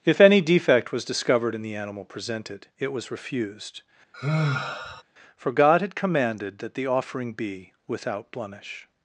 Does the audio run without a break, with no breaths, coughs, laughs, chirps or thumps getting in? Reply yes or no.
no